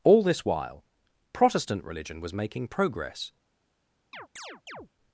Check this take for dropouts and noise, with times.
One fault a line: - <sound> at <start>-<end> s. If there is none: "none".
- chirp at 4.1-4.9 s